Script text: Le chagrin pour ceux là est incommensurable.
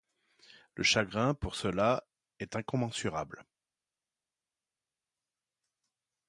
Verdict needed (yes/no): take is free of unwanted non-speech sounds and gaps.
yes